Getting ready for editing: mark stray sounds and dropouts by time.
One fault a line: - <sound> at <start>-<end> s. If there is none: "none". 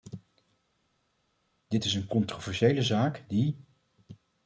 none